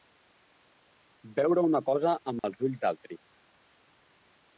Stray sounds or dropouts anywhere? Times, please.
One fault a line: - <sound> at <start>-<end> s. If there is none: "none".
- dropout at 2.4-2.4 s